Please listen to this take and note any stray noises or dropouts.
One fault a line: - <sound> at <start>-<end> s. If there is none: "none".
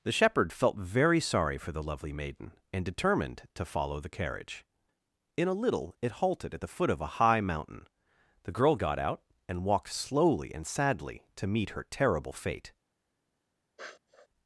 - sniff at 13.8-14.3 s